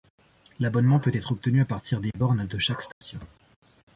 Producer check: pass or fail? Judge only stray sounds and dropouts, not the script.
fail